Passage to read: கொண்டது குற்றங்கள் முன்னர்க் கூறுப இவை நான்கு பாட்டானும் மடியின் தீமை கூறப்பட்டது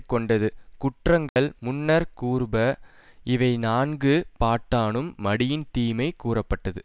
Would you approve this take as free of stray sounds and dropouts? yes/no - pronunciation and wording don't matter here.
no